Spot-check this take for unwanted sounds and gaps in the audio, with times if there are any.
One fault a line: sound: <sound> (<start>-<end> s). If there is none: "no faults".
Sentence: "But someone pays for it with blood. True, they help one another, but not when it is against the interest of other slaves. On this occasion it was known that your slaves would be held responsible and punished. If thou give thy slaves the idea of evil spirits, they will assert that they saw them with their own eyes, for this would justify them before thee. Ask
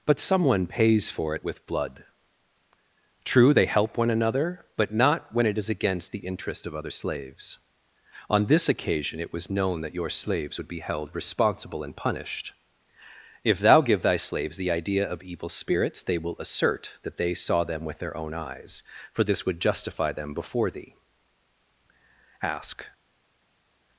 no faults